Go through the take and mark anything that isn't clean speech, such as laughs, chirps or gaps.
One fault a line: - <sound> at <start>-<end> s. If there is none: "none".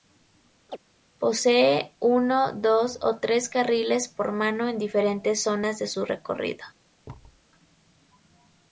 - chirp at 0.7-0.8 s
- thud at 7.0-7.4 s